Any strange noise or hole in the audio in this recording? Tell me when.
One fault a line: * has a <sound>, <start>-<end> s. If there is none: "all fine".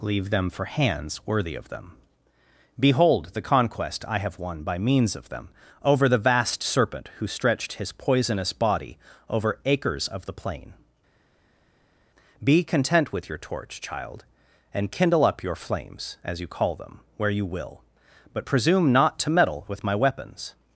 all fine